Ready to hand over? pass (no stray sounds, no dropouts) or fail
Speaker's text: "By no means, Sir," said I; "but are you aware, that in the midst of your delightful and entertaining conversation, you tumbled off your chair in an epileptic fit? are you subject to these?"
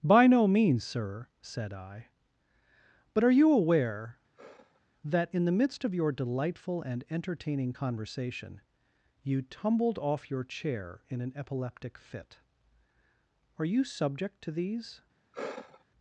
fail